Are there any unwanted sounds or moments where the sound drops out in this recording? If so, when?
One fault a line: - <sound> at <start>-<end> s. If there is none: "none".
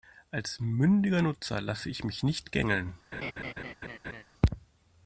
- laugh at 3.1-4.2 s